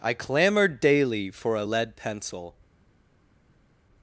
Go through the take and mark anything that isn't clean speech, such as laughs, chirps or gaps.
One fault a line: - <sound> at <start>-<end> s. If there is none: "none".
none